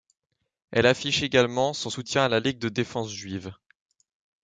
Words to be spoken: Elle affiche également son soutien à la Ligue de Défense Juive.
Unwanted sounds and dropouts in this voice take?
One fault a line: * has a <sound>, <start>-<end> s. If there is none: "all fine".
all fine